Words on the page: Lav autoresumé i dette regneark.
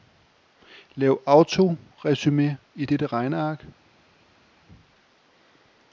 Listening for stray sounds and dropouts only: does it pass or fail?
pass